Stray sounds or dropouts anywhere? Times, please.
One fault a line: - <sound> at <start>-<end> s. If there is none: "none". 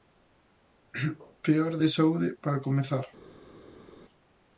none